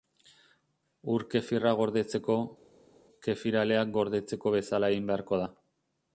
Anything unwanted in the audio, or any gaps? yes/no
no